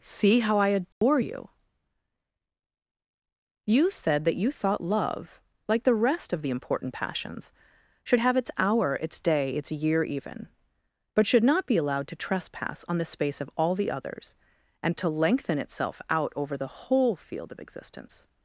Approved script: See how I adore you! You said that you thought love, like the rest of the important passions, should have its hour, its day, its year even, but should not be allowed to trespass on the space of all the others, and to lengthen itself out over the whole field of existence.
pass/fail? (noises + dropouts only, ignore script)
fail